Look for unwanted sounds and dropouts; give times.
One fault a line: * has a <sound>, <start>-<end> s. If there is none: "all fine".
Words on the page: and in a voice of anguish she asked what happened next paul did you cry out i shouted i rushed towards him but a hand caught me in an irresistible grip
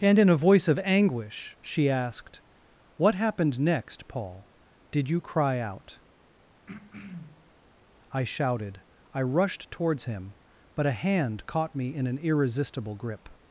* has a throat clearing, 6.7-7.5 s